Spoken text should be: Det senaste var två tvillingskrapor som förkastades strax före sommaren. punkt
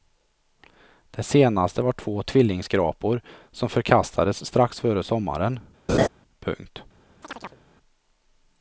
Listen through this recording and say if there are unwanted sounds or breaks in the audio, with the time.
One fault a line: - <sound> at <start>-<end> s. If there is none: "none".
- laugh at 5.9-6.1 s
- chirp at 7.2-7.6 s